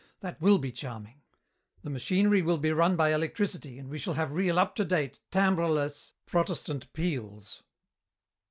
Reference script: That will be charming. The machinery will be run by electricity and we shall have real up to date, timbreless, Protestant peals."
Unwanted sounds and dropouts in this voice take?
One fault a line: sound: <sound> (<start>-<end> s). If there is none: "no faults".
no faults